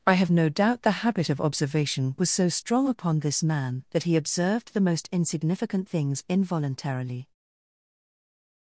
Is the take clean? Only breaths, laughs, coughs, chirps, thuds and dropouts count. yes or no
yes